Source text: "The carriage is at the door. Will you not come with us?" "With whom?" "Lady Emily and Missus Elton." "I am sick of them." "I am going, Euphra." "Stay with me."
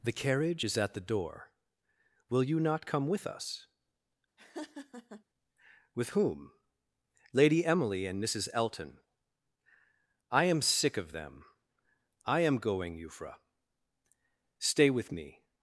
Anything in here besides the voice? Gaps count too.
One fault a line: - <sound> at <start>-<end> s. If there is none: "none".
- laugh at 4.4-5.2 s